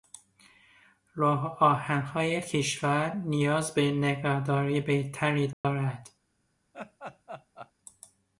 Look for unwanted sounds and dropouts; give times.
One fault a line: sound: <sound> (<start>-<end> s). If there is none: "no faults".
sound: dropout (5.5-5.6 s)
sound: laugh (6.7-7.7 s)